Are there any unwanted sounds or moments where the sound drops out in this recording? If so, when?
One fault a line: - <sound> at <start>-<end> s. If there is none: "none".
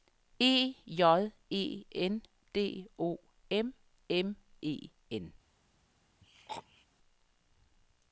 - throat clearing at 6.2-6.9 s